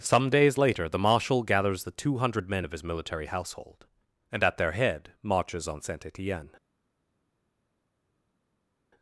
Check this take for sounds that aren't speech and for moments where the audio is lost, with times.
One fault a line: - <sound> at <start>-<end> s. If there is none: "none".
none